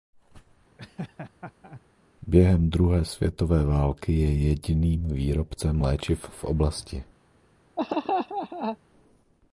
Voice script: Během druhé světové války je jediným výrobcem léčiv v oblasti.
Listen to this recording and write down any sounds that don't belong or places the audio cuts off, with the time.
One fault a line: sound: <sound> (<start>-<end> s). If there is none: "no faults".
sound: laugh (0.8-1.8 s)
sound: laugh (7.8-8.8 s)